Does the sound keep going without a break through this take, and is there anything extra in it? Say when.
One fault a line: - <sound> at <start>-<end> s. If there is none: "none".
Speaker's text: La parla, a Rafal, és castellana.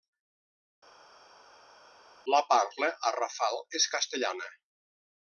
none